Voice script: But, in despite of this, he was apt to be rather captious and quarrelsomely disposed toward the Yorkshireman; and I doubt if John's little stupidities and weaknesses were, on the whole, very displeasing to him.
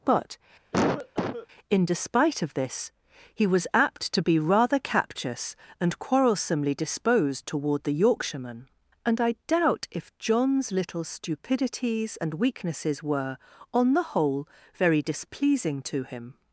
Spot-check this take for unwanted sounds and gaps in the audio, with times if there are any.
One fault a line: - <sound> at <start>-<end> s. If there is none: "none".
- cough at 0.7-1.5 s